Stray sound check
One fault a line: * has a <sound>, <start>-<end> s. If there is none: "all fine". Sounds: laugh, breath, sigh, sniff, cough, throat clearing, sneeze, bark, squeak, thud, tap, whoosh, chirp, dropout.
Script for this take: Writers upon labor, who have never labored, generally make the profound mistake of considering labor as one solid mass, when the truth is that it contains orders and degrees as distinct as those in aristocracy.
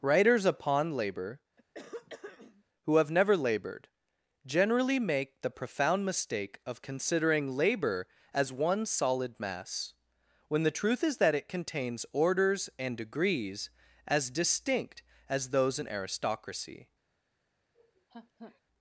* has a throat clearing, 1.6-2.6 s
* has a laugh, 17.7-18.6 s